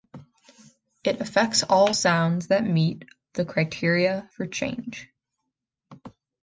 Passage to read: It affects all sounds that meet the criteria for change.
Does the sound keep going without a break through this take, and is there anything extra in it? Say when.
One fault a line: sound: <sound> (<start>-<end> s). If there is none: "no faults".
no faults